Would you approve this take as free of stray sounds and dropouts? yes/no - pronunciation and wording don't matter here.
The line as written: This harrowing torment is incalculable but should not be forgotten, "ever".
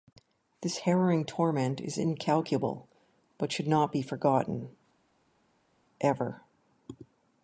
yes